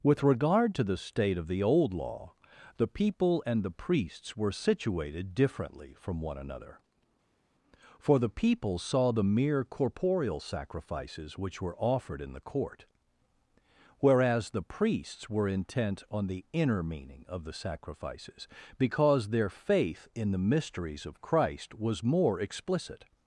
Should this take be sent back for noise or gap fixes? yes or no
no